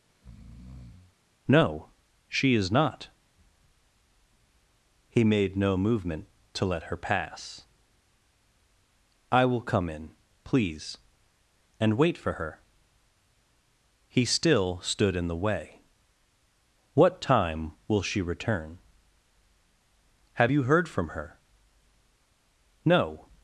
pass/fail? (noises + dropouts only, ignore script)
fail